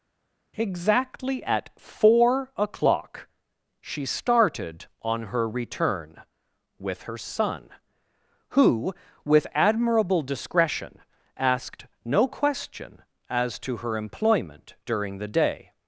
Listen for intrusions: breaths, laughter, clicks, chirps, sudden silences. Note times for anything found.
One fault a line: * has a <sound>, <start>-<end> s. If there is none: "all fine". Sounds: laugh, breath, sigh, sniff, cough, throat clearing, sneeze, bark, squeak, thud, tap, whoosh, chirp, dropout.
all fine